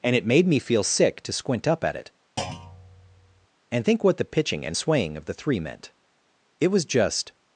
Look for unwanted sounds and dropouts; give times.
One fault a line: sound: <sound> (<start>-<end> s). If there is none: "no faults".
sound: thud (2.4-3.5 s)